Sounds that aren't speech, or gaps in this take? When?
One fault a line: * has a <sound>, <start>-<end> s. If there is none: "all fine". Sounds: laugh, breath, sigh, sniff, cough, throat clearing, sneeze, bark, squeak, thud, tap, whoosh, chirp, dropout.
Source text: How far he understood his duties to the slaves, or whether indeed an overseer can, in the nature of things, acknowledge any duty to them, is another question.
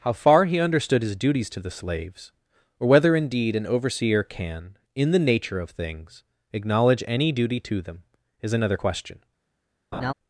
* has a laugh, 9.9-10.1 s